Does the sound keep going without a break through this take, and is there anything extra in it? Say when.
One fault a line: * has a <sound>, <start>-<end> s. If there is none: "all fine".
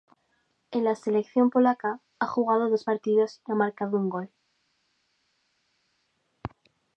all fine